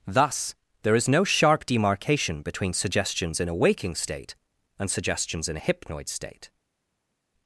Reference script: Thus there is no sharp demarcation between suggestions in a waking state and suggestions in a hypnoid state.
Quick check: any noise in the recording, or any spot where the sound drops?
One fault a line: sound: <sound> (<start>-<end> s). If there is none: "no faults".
no faults